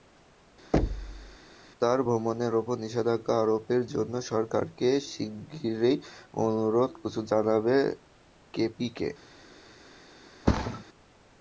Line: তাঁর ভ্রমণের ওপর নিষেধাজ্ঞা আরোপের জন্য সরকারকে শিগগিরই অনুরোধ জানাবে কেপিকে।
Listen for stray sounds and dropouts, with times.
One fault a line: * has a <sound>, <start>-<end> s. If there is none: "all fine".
* has a thud, 0.7-1.4 s
* has a thud, 10.5-10.8 s